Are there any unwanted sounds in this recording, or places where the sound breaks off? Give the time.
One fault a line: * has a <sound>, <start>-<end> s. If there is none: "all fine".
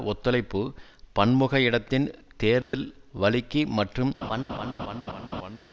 * has a dropout, 2.6-2.7 s
* has a laugh, 4.2-5.6 s